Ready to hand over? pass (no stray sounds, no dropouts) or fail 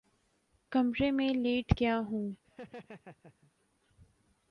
fail